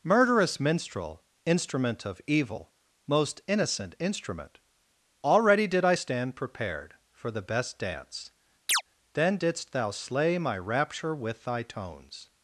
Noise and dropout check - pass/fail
fail